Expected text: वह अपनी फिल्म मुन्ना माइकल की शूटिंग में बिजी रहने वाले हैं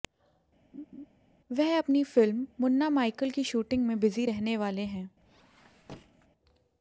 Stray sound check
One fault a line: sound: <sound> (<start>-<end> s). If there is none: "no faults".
sound: laugh (0.7-1.1 s)
sound: squeak (5.2-6.3 s)